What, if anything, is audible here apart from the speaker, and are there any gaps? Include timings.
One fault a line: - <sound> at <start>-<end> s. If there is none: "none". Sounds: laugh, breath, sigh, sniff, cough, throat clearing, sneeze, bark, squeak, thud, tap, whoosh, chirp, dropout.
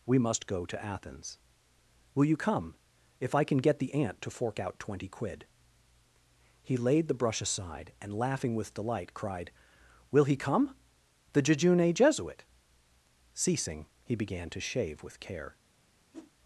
- whoosh at 16.1-16.3 s